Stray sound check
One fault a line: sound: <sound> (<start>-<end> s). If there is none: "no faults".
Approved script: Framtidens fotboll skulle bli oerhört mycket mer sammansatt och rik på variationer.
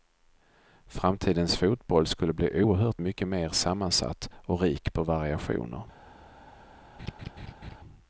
sound: laugh (7.0-7.8 s)